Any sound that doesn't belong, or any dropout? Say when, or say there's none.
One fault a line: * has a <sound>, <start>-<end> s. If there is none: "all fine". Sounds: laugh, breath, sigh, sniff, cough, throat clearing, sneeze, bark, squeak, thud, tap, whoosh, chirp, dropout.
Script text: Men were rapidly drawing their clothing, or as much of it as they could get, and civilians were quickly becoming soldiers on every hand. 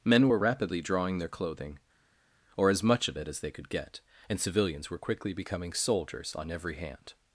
all fine